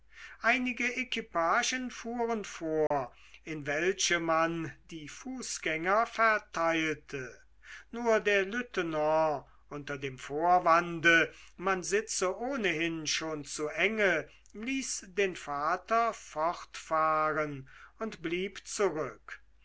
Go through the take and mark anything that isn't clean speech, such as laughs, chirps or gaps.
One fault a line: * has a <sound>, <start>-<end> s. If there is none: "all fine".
* has a dropout, 2.9-2.9 s